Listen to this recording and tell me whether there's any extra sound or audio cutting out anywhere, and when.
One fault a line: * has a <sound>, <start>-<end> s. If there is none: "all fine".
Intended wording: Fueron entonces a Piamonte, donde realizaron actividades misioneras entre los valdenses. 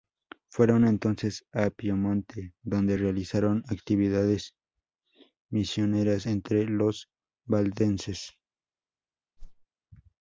* has a whoosh, 9.4-9.7 s